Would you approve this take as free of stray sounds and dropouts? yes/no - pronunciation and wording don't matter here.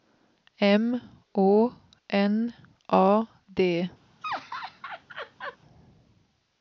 no